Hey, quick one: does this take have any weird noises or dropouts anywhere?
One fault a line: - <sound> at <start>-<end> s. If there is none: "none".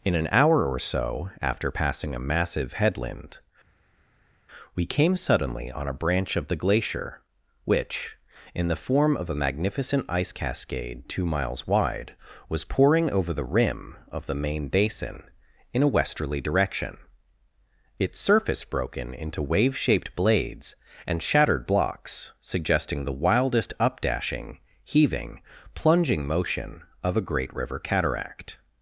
none